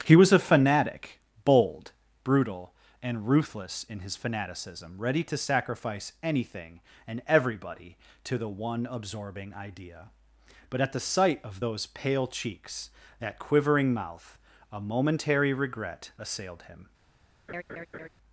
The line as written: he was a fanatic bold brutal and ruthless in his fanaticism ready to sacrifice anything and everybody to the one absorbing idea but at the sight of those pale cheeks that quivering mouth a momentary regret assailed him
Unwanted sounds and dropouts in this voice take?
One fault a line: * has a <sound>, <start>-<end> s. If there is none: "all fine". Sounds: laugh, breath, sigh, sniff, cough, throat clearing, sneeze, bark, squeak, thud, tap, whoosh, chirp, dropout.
* has a laugh, 17.5-18.1 s